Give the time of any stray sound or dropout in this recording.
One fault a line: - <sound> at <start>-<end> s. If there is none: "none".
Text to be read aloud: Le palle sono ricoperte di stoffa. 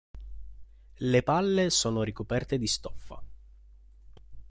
none